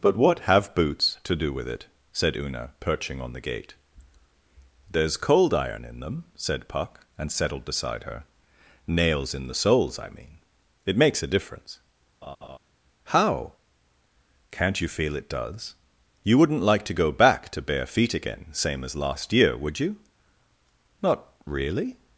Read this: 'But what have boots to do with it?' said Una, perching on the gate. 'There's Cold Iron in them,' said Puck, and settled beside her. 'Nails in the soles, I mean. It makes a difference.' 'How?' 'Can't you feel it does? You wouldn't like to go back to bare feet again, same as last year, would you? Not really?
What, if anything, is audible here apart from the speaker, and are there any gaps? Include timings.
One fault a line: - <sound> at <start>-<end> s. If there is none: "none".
- laugh at 12.2-12.6 s